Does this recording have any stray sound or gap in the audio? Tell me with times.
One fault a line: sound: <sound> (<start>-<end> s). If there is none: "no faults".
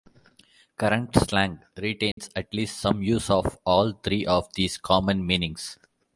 sound: dropout (2.1-2.2 s)